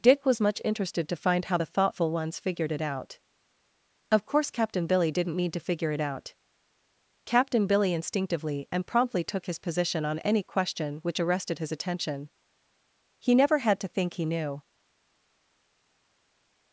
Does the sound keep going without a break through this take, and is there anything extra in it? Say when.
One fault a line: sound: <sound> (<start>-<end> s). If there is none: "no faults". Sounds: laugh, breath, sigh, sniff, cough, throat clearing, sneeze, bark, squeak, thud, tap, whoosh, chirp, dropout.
no faults